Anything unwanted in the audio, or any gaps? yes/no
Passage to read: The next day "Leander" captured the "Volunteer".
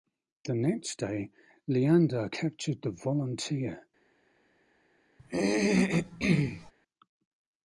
yes